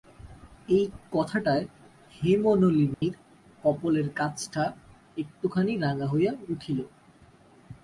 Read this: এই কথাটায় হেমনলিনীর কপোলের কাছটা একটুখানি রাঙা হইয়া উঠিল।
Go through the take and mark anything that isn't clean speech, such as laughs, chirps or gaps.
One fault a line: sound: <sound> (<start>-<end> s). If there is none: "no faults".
sound: dropout (2.9-3.0 s)